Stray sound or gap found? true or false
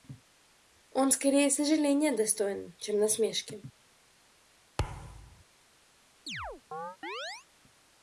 true